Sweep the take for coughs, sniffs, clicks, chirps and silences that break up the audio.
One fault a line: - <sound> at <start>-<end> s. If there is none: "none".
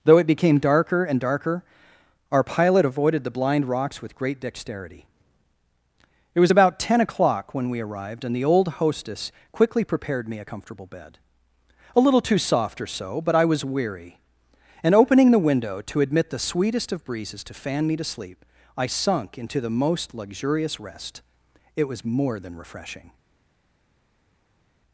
none